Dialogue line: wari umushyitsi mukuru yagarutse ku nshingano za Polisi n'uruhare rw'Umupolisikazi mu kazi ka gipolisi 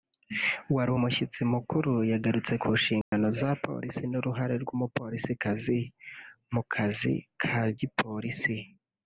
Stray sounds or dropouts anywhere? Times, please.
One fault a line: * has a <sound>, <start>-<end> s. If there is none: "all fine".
* has a dropout, 3.0-3.1 s